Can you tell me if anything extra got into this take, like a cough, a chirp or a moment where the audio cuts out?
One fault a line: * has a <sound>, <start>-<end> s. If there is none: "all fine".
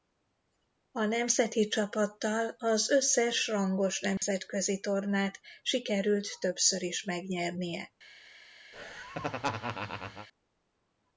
* has a dropout, 4.2-4.2 s
* has a laugh, 8.7-10.3 s